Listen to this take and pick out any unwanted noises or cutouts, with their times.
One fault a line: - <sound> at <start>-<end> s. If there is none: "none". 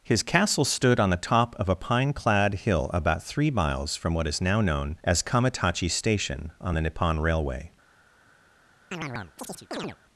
- chirp at 8.9-10.0 s